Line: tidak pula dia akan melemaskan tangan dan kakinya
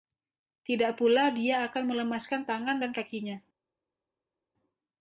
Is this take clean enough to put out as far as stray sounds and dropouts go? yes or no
yes